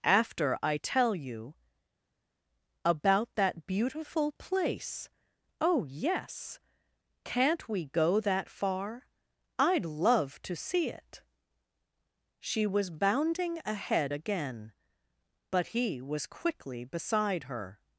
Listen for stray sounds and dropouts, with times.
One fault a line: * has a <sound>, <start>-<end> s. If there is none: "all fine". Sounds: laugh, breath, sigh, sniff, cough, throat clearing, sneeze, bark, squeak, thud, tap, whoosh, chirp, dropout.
all fine